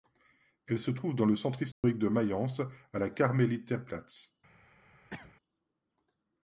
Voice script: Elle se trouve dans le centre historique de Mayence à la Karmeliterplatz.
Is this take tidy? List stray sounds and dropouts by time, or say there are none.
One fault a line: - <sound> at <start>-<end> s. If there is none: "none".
- dropout at 1.7-1.8 s
- cough at 5.1-5.3 s